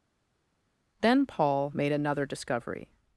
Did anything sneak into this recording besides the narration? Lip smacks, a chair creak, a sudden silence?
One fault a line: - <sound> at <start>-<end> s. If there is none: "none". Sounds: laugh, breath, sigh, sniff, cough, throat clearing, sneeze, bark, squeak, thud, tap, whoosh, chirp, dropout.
none